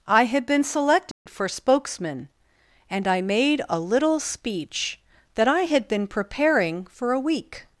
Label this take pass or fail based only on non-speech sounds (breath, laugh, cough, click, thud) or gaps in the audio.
fail